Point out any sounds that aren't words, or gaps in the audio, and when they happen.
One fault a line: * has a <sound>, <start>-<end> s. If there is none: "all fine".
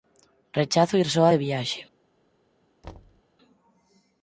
* has a thud, 2.8-3.2 s